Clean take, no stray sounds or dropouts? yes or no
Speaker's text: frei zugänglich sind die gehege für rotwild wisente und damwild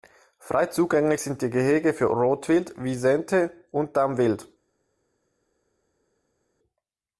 yes